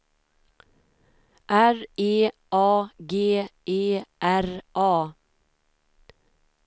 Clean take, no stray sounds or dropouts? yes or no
yes